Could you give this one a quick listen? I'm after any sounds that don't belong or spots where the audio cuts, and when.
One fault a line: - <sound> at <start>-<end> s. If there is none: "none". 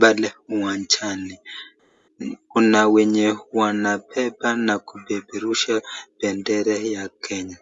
none